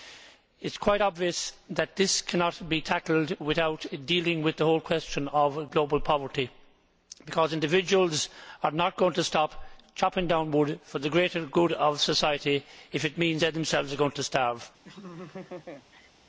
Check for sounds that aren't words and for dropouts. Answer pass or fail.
fail